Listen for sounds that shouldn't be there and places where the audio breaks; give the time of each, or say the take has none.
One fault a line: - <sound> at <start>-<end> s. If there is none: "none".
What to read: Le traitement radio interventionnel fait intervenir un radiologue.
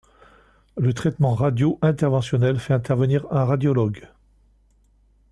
none